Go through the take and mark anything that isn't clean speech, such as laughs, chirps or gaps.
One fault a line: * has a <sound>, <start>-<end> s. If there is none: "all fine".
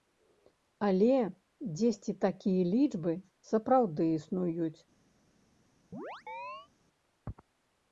* has a chirp, 5.9-6.7 s